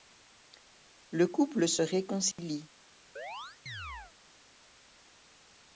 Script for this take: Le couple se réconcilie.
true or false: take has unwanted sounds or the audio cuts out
true